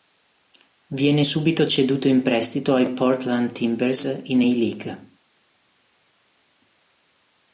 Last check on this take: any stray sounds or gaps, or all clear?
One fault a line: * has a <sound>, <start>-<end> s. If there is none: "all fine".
all fine